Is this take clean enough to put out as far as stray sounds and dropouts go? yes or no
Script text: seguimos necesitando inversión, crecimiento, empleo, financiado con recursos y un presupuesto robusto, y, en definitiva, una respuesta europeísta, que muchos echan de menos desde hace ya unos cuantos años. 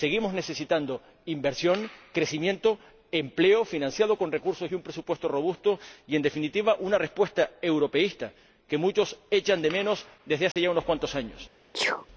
no